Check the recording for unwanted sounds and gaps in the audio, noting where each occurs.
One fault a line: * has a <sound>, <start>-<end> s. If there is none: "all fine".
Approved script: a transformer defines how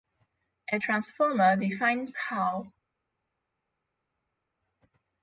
all fine